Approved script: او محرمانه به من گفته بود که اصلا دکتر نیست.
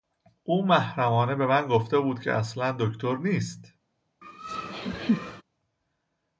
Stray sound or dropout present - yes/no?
yes